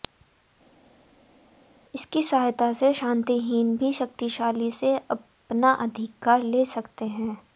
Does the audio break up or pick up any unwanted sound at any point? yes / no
no